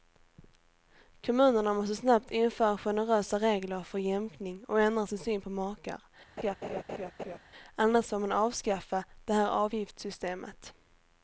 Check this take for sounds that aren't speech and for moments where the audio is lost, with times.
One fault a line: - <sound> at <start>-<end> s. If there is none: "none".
- laugh at 6.4-7.4 s